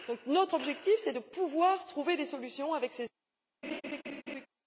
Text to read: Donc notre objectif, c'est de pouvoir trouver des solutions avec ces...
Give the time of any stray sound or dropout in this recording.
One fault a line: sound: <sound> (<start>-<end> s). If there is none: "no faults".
sound: laugh (3.6-4.5 s)